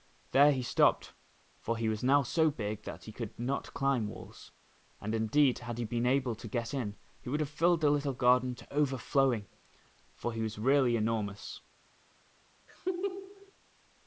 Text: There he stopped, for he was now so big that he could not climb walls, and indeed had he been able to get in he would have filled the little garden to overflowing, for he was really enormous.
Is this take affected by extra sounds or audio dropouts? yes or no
yes